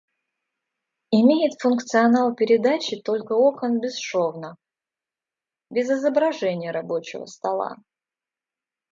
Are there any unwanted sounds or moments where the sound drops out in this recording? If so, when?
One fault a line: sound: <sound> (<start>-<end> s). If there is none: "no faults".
no faults